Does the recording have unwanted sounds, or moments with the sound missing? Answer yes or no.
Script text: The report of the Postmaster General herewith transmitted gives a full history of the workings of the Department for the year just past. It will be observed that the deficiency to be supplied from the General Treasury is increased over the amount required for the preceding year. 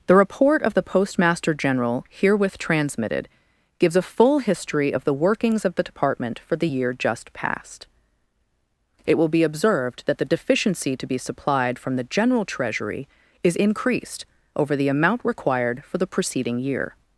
no